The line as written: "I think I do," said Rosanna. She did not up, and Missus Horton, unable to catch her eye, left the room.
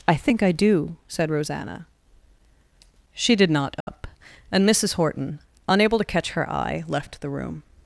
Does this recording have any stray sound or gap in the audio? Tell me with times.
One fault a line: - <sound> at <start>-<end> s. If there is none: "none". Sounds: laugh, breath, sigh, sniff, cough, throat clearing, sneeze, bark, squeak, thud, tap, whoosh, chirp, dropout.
- dropout at 3.8-3.9 s